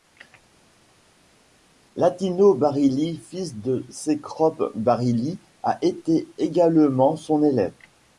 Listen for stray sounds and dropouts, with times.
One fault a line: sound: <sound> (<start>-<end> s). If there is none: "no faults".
no faults